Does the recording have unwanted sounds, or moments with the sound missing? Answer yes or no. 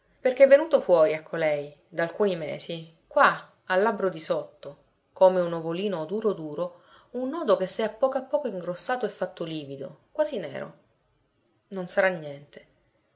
no